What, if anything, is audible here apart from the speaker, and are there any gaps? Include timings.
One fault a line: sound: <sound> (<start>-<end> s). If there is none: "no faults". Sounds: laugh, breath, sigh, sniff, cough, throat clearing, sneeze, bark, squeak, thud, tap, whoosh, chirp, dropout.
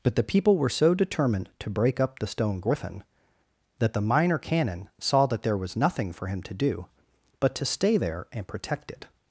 no faults